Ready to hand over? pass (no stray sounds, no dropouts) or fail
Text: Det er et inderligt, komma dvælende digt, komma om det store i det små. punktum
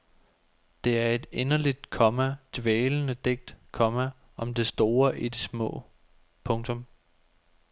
pass